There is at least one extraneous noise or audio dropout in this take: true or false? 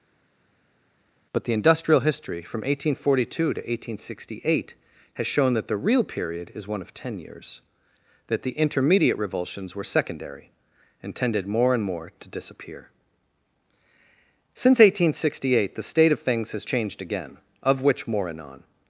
false